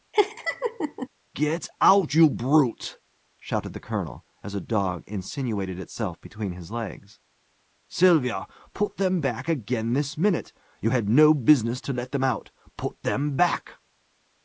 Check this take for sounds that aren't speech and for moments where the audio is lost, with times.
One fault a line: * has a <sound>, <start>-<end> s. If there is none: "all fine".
* has a laugh, 0.1-1.1 s